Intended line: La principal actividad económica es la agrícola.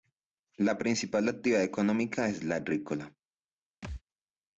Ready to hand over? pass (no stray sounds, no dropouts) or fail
fail